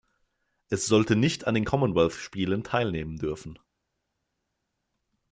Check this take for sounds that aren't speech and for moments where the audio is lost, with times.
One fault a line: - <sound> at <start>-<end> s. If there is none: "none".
none